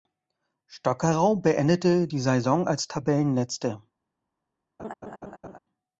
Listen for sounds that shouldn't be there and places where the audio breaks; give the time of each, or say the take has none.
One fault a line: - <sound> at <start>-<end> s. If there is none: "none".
- laugh at 4.8-5.6 s